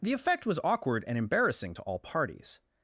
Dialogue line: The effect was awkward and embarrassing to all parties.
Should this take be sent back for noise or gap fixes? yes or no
no